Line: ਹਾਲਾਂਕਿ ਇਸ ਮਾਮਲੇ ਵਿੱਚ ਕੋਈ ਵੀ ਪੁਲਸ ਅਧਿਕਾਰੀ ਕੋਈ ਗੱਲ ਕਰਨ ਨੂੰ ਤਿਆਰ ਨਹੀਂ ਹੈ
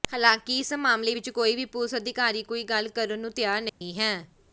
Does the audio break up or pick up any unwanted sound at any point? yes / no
yes